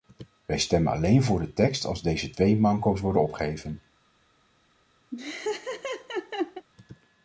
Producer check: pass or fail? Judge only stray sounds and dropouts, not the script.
fail